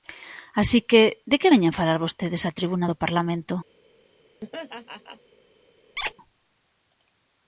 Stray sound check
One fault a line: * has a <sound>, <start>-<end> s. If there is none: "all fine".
* has a laugh, 4.4-5.2 s
* has a squeak, 6.0-6.1 s